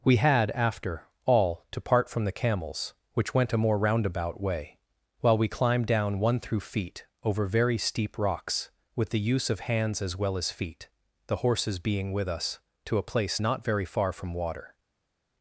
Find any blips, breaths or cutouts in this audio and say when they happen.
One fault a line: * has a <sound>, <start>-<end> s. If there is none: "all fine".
all fine